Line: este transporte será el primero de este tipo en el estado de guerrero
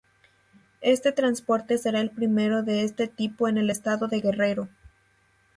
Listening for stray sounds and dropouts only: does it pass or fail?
pass